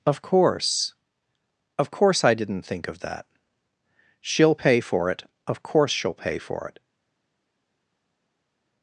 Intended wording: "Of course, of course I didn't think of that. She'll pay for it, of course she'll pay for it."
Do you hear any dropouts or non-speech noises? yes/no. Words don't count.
no